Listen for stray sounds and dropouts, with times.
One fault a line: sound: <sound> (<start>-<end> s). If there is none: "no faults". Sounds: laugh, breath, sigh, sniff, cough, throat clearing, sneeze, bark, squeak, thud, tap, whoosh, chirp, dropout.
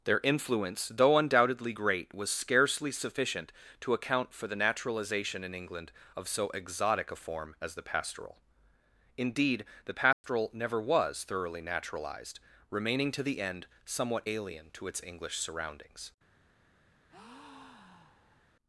sound: dropout (10.1-10.2 s)
sound: breath (17.1-18.5 s)